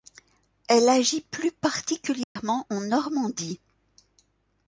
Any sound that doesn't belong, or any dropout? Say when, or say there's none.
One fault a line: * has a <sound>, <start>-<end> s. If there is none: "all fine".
* has a dropout, 2.2-2.4 s